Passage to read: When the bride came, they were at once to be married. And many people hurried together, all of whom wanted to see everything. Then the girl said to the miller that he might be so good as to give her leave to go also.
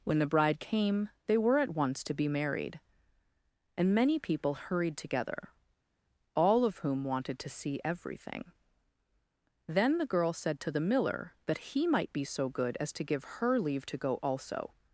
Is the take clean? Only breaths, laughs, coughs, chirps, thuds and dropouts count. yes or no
yes